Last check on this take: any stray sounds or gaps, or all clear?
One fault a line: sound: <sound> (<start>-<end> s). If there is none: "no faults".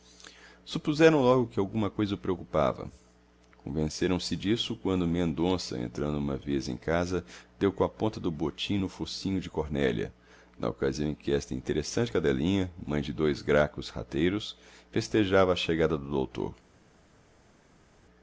no faults